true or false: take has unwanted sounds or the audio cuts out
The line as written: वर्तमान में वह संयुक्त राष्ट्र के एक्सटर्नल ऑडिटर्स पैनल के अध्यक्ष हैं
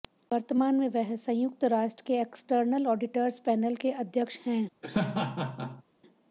true